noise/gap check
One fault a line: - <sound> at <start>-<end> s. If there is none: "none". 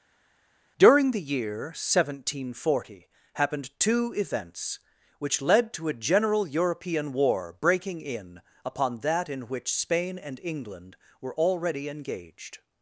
none